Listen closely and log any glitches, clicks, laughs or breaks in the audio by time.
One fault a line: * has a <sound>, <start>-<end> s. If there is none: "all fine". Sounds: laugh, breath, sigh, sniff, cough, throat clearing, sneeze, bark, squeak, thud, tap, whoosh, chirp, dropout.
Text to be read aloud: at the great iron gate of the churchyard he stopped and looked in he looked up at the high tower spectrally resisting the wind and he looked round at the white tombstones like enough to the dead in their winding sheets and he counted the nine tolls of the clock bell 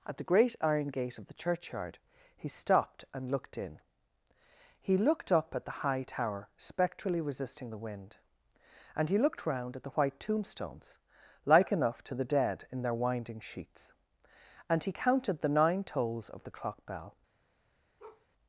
* has a bark, 18.0-18.3 s